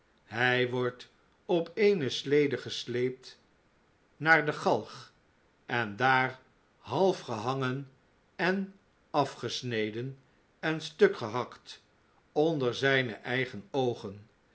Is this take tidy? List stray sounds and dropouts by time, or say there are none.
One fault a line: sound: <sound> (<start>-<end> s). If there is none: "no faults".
no faults